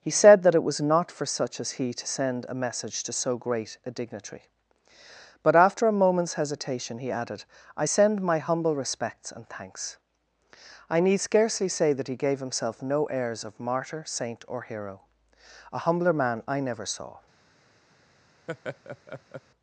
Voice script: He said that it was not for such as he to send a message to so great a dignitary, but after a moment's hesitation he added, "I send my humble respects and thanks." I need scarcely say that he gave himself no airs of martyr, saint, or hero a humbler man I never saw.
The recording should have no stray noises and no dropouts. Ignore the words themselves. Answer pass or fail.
fail